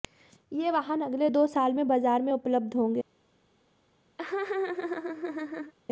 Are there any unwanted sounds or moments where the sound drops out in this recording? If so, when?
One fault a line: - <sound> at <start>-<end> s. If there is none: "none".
- laugh at 4.2-5.7 s